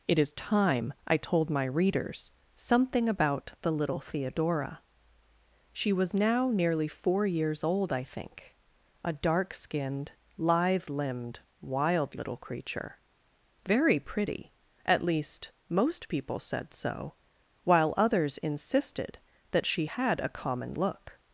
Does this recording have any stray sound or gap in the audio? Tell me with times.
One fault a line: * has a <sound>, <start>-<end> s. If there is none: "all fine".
all fine